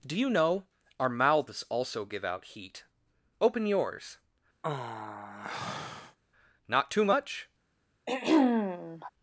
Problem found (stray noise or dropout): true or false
true